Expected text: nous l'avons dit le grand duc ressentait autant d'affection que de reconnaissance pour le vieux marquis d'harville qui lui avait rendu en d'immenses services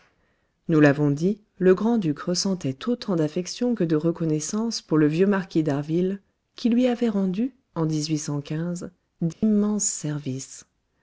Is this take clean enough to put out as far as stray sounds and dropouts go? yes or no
no